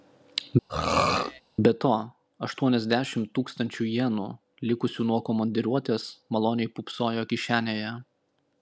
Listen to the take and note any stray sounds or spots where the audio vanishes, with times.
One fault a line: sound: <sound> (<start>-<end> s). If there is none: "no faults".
sound: throat clearing (0.7-1.4 s)